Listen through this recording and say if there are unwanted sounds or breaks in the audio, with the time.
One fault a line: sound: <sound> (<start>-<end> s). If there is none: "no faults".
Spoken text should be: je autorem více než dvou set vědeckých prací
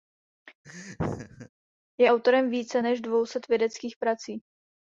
sound: laugh (0.6-1.5 s)